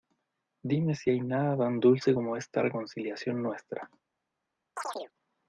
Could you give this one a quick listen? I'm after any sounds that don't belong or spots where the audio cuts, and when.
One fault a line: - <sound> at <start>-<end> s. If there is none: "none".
- chirp at 4.8-5.1 s